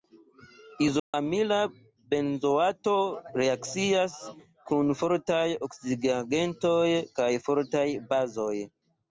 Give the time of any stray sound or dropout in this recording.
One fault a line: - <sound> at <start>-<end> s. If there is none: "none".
- dropout at 1.0-1.1 s